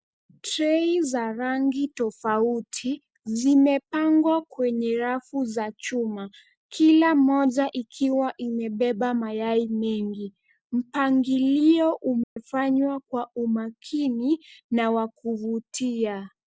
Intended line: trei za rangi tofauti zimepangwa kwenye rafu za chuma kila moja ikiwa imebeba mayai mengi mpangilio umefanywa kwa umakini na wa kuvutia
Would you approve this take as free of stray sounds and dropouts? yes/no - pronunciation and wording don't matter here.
no